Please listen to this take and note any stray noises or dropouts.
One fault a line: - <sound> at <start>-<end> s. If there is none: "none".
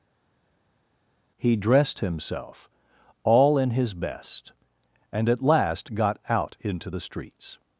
none